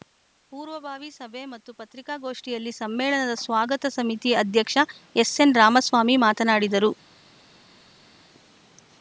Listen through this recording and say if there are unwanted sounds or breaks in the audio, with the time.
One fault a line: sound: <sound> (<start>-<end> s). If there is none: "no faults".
no faults